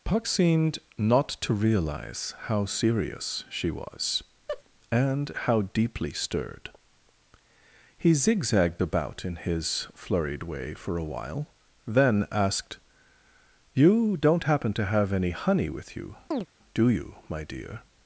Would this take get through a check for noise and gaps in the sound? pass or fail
fail